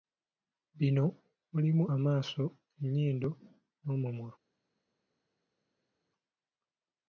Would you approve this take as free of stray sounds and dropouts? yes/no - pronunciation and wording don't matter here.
yes